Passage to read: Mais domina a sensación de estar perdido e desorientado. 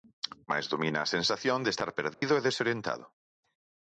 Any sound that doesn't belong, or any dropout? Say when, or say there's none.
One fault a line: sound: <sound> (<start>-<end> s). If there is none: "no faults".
sound: dropout (2.1-2.2 s)